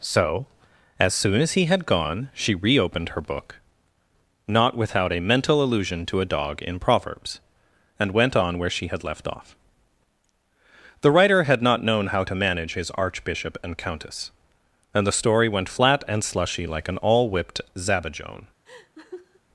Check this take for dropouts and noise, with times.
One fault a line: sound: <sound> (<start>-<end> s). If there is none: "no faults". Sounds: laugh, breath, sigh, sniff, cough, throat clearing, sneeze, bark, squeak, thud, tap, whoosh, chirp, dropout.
sound: laugh (18.7-19.4 s)